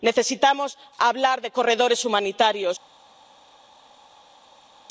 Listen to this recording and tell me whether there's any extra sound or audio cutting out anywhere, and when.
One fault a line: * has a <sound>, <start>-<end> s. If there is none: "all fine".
all fine